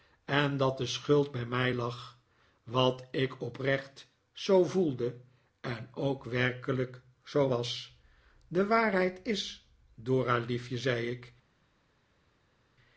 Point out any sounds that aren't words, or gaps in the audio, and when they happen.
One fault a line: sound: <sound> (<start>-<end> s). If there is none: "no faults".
no faults